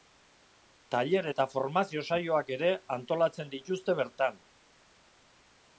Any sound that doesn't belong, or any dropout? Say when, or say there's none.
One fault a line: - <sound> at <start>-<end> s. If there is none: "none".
none